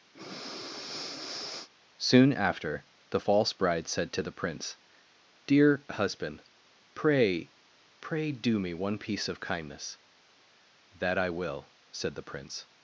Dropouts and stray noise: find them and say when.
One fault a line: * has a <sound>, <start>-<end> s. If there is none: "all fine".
* has a breath, 0.1-1.7 s